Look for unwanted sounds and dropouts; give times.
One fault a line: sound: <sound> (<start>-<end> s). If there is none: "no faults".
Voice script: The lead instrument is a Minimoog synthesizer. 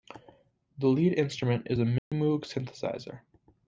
sound: dropout (2.0-2.1 s)